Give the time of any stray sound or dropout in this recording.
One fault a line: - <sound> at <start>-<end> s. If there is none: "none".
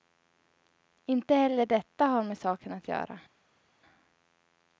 none